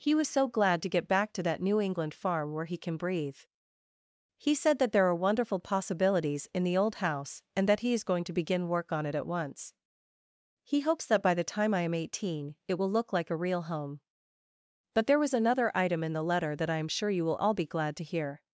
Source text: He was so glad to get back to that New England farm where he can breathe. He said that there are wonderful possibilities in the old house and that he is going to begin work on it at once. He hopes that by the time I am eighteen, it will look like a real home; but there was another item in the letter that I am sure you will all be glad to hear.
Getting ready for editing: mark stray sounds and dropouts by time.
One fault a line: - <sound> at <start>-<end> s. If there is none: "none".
none